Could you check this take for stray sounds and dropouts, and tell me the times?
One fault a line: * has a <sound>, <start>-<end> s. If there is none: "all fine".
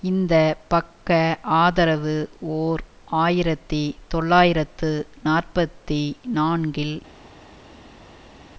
all fine